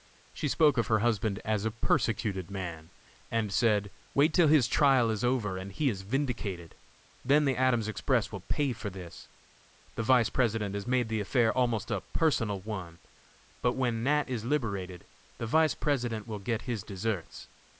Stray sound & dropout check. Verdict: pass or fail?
pass